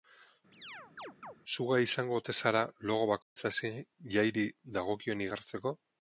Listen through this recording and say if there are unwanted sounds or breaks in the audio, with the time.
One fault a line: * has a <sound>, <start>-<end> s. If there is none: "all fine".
* has a chirp, 0.5-1.4 s
* has a dropout, 3.2-3.4 s